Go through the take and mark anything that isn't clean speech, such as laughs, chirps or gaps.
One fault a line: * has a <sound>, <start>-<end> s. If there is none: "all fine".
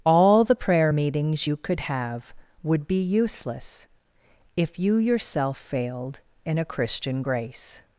all fine